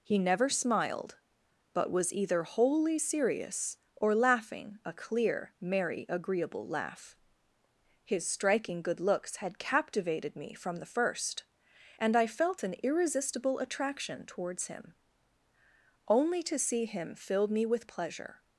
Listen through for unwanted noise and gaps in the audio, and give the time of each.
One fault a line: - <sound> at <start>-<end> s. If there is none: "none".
none